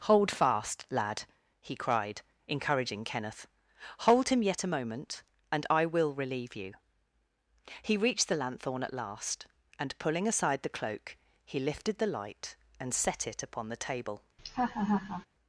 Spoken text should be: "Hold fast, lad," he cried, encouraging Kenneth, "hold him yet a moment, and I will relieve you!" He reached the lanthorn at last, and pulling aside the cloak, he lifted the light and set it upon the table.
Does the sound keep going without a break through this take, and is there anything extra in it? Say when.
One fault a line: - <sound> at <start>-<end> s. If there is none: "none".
- laugh at 14.4-15.3 s